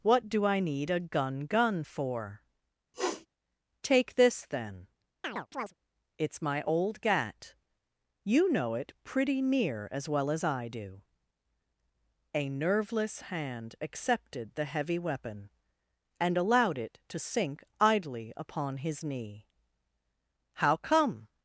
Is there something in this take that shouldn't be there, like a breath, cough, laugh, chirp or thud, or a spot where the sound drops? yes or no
yes